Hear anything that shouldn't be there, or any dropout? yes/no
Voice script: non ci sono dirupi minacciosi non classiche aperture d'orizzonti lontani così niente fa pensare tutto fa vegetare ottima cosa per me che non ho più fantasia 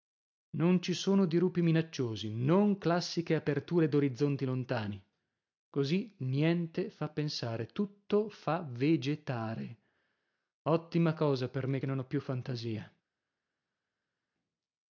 no